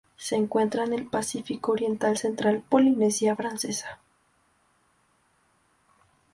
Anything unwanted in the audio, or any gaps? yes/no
no